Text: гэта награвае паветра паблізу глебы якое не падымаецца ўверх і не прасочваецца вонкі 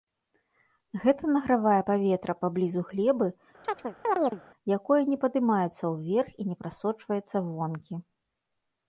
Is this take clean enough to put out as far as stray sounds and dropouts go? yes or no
no